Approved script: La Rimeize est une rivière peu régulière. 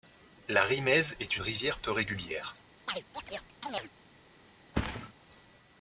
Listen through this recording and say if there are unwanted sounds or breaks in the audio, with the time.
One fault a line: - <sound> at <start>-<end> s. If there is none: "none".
- chirp at 2.9-3.9 s
- thud at 4.7-5.1 s